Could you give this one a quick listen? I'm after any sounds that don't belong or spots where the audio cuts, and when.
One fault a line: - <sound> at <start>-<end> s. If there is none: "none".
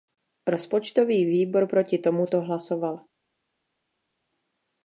none